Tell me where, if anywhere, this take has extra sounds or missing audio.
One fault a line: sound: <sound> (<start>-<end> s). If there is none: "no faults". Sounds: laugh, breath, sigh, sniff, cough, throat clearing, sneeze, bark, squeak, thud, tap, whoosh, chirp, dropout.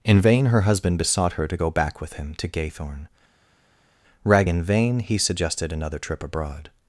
no faults